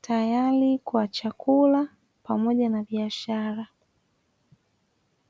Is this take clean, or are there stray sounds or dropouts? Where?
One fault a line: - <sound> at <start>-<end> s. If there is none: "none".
none